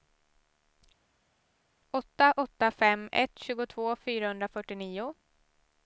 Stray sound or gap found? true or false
false